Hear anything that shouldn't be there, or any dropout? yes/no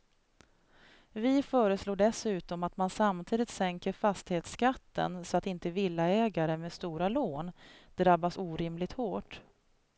no